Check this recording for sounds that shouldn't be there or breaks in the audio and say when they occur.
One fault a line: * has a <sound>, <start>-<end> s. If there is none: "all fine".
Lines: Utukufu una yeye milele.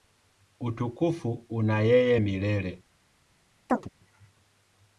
* has a chirp, 3.7-3.9 s